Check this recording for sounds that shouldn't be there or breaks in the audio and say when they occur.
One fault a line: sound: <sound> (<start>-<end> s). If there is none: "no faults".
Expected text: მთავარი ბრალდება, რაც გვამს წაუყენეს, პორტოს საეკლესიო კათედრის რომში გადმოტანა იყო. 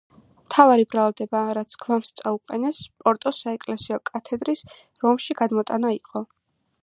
no faults